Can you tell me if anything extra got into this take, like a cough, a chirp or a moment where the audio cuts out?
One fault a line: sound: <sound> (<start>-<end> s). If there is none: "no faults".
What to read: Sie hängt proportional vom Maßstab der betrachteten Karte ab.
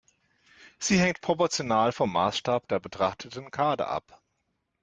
no faults